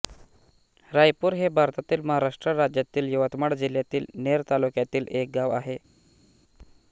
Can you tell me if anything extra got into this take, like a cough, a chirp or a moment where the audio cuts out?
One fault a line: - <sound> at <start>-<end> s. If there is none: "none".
none